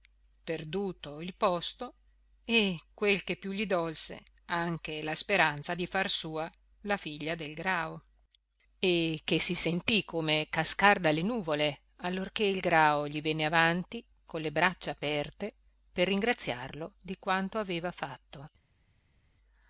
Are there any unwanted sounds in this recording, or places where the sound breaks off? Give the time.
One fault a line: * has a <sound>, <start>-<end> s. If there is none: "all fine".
all fine